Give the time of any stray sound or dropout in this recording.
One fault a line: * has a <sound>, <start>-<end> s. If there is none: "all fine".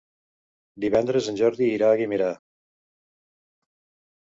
all fine